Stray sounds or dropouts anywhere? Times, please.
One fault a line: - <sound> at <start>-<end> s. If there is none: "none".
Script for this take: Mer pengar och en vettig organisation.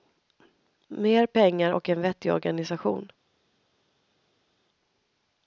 none